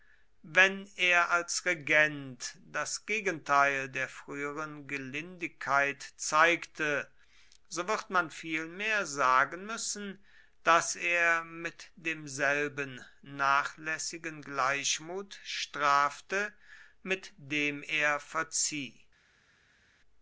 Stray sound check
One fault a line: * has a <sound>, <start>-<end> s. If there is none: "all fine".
all fine